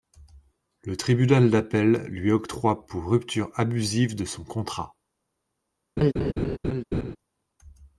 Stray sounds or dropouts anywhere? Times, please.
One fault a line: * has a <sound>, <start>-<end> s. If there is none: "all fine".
* has a laugh, 6.0-7.2 s